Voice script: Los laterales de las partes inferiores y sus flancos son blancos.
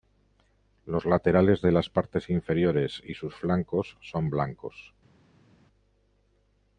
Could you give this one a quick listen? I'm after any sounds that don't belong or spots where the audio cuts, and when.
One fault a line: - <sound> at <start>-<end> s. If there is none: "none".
none